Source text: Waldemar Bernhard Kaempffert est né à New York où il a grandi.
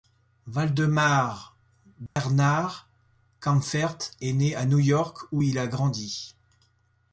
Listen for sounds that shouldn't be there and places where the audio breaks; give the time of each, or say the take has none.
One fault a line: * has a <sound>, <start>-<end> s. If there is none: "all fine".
* has a dropout, 2.1-2.2 s